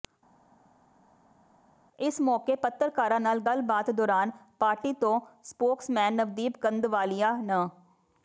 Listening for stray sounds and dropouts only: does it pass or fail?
pass